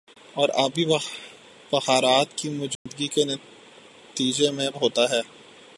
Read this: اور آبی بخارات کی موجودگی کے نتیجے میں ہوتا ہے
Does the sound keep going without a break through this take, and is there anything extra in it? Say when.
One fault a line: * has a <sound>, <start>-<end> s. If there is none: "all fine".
* has a dropout, 2.8-2.9 s